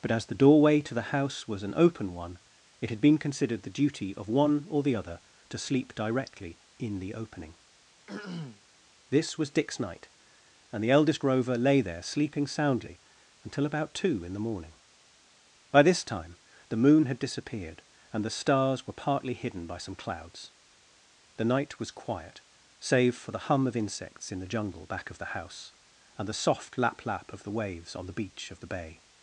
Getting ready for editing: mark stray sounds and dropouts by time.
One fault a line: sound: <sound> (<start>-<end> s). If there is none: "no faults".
sound: throat clearing (8.1-8.6 s)